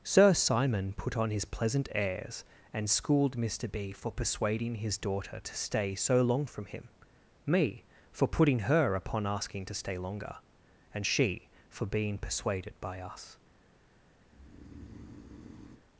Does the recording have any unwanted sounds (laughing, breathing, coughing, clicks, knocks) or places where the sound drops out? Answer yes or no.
yes